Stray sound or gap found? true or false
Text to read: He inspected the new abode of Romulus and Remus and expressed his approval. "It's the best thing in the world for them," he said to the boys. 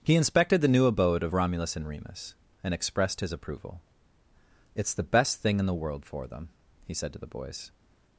false